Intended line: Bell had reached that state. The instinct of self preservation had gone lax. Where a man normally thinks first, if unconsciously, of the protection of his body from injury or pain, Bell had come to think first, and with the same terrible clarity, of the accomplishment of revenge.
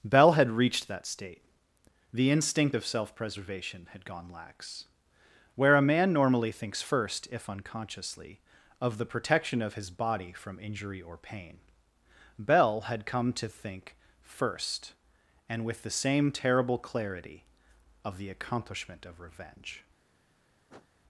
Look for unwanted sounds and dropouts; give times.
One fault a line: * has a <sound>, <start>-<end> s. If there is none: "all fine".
* has a sniff, 20.7-20.9 s